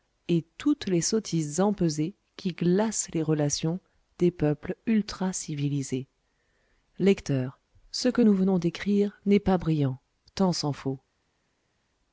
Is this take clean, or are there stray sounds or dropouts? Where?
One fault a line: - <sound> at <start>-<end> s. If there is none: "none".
none